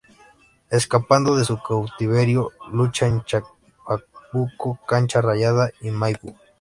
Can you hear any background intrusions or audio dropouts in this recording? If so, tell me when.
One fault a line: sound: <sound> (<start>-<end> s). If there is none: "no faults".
no faults